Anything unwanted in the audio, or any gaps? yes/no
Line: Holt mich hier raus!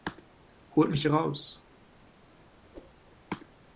yes